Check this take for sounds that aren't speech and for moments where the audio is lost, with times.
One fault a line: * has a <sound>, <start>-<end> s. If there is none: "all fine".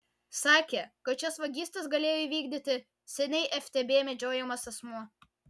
all fine